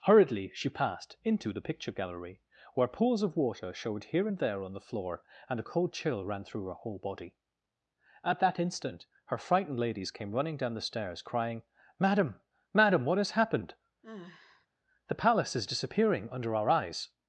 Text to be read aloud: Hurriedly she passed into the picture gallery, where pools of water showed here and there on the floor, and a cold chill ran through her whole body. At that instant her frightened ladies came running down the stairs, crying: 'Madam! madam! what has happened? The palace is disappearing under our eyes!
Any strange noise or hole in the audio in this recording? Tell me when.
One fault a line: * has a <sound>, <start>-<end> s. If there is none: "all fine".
* has a sigh, 14.0-14.7 s